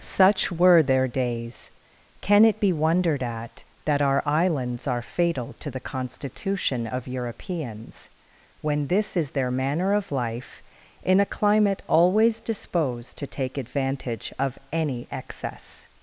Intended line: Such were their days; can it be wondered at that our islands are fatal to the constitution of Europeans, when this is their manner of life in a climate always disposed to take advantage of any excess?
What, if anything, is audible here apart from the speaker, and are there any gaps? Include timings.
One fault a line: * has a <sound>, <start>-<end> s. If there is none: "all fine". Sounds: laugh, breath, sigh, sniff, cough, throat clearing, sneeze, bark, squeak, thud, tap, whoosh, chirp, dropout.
all fine